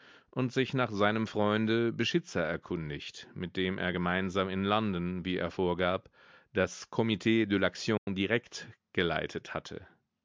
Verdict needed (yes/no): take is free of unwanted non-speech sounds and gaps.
no